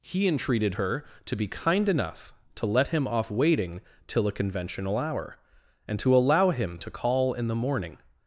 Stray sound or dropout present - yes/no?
no